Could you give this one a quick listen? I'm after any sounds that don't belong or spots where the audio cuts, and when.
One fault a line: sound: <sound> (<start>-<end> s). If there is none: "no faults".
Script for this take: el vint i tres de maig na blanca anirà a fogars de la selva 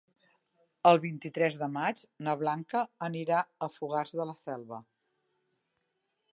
no faults